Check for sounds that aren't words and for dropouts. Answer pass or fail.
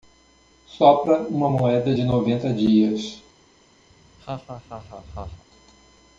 fail